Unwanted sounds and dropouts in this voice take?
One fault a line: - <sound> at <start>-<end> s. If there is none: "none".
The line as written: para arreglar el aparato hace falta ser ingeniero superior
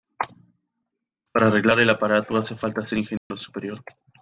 - dropout at 3.2-3.3 s